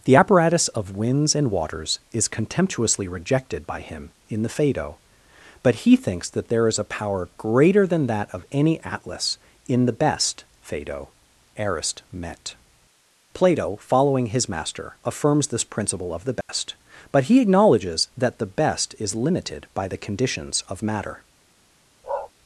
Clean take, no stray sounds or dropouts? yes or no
no